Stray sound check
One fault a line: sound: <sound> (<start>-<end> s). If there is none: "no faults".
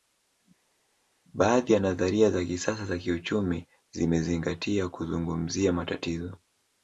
no faults